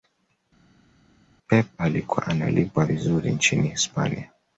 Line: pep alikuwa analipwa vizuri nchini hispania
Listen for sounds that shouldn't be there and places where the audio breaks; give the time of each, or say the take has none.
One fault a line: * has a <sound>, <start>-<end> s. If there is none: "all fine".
all fine